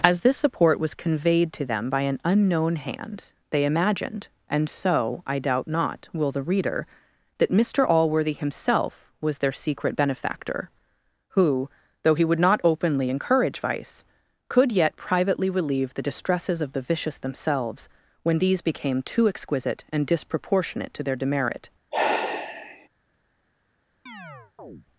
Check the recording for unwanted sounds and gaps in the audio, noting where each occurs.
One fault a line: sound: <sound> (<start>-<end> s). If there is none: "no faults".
sound: sigh (21.9-22.9 s)
sound: chirp (24.1-24.9 s)